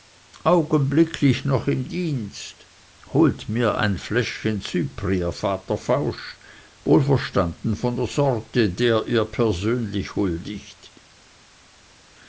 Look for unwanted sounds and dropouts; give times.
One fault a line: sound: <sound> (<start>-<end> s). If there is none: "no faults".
no faults